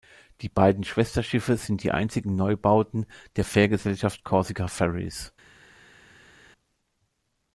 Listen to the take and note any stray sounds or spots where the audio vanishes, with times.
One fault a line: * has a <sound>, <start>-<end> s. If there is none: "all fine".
all fine